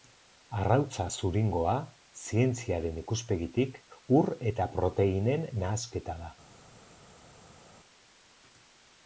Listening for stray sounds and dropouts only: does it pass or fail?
pass